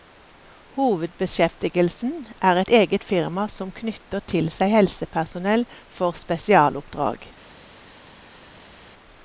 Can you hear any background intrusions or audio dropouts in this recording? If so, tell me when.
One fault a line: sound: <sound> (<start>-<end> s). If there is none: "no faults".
no faults